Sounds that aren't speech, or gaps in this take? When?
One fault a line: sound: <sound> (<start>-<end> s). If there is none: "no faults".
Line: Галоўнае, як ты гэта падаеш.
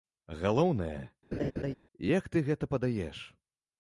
sound: laugh (1.3-1.7 s)